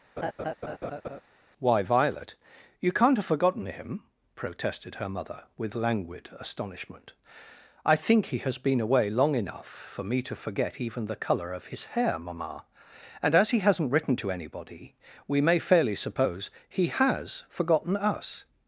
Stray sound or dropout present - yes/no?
yes